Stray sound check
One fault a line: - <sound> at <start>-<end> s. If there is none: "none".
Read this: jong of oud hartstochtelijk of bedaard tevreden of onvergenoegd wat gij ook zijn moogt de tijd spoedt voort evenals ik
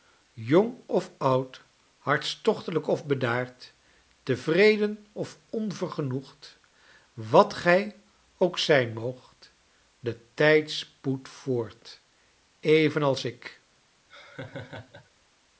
- laugh at 14.1-15.1 s